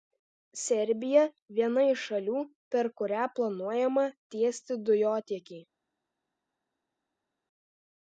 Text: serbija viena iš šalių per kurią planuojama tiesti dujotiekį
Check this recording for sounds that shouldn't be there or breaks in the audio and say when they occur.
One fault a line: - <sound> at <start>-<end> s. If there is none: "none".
none